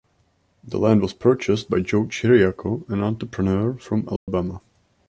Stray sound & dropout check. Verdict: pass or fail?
fail